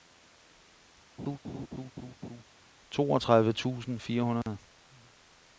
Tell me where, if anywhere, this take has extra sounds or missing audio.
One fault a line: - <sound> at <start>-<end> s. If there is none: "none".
- laugh at 1.2-2.4 s
- dropout at 4.4-4.5 s